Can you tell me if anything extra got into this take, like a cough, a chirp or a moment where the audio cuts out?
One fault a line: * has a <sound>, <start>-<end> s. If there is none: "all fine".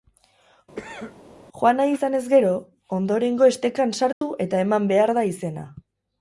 * has a cough, 0.8-1.2 s
* has a dropout, 4.1-4.2 s